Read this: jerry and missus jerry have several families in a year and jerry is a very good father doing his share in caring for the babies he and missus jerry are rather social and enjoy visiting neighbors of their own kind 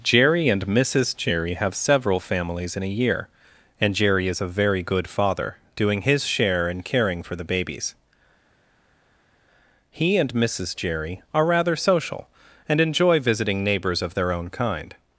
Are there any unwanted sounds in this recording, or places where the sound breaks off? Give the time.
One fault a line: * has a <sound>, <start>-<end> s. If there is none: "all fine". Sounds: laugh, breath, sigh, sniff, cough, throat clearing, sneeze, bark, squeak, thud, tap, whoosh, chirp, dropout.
all fine